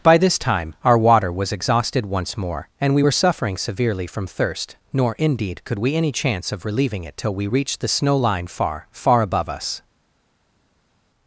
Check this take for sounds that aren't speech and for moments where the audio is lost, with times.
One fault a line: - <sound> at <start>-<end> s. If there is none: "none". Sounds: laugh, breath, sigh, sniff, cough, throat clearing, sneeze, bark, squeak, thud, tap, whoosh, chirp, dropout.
none